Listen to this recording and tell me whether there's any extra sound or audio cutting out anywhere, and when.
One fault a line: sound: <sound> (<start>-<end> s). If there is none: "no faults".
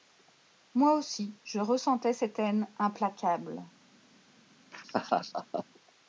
sound: laugh (4.7-5.7 s)